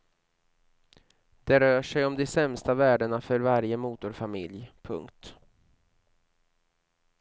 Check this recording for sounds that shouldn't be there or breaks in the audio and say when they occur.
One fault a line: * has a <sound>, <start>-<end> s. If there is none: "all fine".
all fine